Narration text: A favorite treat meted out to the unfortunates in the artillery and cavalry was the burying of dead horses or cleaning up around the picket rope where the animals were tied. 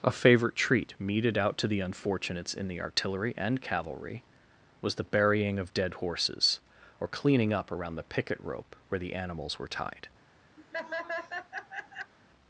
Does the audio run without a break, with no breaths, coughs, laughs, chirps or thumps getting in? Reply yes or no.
no